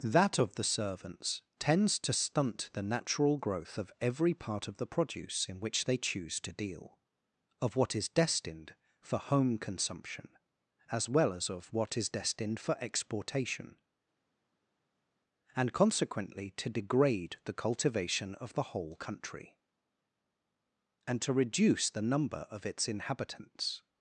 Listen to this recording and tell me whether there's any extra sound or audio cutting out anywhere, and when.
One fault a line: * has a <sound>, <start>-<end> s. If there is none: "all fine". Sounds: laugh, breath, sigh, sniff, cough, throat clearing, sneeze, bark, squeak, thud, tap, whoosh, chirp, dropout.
all fine